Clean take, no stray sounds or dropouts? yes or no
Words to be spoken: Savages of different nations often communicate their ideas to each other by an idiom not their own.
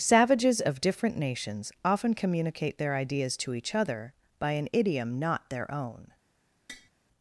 no